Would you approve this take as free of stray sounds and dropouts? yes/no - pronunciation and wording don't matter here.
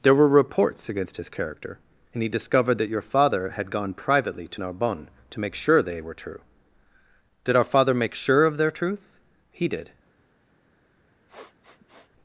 no